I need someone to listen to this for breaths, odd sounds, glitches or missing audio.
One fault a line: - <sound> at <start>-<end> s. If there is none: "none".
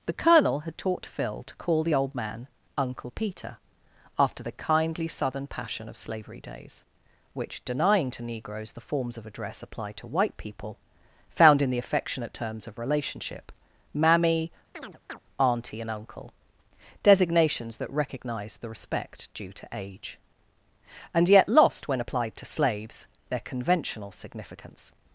- chirp at 14.7-15.2 s